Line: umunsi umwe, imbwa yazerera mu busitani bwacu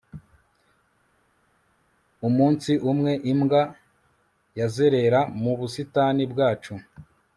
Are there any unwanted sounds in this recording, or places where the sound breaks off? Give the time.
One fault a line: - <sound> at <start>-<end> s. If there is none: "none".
none